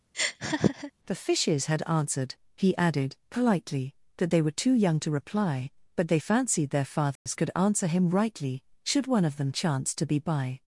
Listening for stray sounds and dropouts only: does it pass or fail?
fail